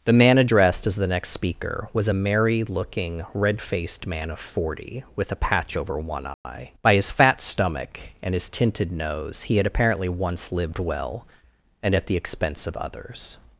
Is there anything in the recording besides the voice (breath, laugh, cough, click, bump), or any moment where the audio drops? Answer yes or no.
yes